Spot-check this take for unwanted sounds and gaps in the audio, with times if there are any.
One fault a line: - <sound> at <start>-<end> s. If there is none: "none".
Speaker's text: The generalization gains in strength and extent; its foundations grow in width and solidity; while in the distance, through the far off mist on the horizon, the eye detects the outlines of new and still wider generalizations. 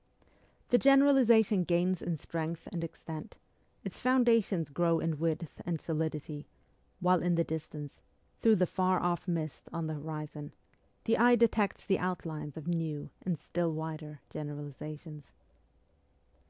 none